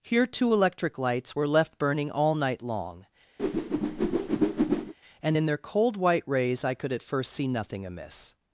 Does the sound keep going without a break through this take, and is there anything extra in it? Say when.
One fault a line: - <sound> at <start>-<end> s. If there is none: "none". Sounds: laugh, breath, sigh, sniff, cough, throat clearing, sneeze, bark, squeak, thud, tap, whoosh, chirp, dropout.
- whoosh at 3.4-4.9 s